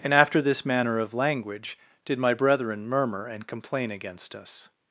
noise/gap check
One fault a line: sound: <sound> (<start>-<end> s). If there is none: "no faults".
no faults